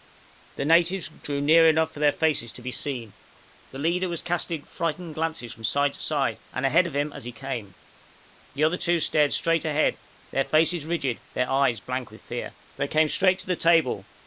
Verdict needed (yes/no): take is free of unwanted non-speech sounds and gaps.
yes